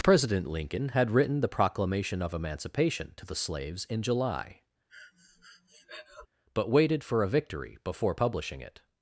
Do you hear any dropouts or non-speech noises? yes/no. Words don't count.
yes